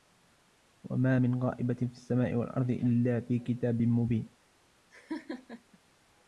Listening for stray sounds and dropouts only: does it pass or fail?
fail